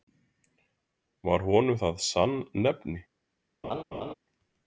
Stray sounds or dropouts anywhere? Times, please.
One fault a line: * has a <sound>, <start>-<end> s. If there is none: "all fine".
* has a laugh, 3.6-4.1 s